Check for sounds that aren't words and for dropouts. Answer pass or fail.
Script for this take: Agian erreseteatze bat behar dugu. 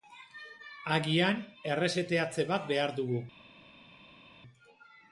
pass